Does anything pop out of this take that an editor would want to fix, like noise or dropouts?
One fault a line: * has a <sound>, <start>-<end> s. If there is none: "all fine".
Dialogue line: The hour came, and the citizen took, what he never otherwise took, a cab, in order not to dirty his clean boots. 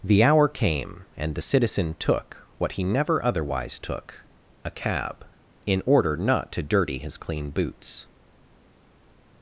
all fine